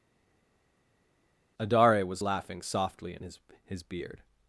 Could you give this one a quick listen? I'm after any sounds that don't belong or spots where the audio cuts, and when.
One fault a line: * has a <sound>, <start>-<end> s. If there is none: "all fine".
all fine